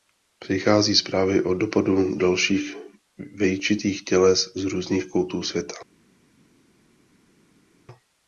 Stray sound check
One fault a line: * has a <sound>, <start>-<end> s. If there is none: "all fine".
all fine